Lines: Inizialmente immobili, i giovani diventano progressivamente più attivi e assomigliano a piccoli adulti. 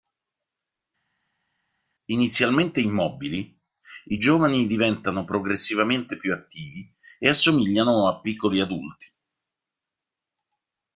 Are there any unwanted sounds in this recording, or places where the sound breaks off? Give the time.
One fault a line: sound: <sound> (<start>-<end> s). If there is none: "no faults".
no faults